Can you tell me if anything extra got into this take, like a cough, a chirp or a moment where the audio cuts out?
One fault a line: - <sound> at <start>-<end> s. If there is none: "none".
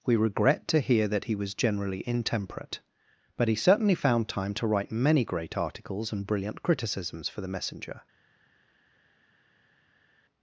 none